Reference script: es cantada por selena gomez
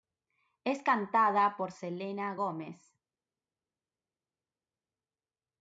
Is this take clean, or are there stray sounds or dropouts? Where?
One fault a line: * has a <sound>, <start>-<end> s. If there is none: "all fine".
all fine